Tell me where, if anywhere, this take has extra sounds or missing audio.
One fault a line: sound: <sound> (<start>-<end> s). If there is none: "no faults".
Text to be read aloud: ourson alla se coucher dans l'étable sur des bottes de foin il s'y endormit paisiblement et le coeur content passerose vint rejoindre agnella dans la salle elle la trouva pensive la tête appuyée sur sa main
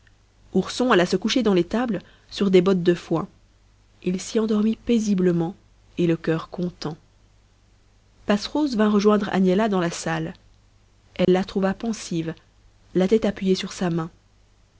sound: dropout (11.2-11.3 s)